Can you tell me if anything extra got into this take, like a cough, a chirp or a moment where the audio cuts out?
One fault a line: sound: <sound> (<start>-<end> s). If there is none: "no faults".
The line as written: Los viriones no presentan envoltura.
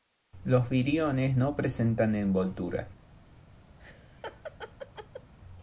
sound: laugh (3.8-5.3 s)